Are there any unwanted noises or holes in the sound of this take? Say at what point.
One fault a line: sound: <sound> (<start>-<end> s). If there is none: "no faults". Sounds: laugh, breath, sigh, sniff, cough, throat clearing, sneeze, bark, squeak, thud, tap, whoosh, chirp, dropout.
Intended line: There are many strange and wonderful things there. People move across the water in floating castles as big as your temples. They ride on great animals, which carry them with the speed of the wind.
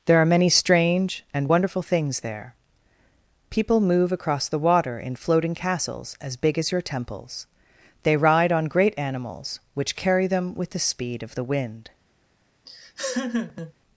sound: laugh (12.7-13.7 s)